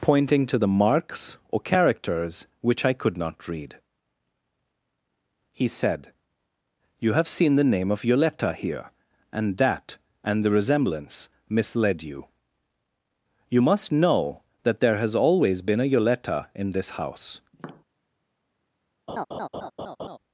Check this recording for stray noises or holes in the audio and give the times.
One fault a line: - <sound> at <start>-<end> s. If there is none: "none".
- tap at 17.5-17.8 s
- laugh at 19.1-20.2 s